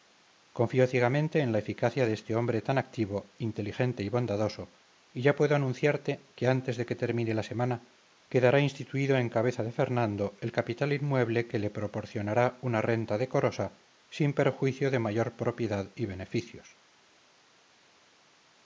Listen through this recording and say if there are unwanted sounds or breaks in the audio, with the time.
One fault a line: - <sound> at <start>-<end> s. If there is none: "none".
none